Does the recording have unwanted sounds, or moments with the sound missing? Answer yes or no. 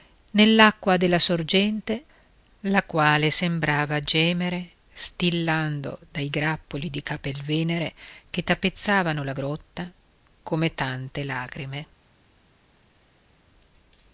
no